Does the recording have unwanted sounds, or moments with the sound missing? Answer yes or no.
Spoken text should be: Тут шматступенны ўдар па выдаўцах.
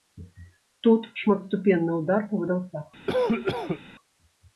yes